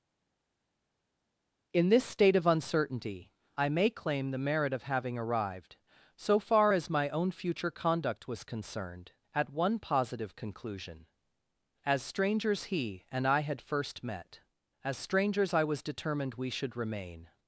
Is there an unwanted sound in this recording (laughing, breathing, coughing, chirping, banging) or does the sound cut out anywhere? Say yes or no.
no